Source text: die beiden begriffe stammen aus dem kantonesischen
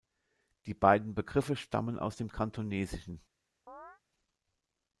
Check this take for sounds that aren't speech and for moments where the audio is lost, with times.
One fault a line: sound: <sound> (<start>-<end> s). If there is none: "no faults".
sound: chirp (3.7-4.0 s)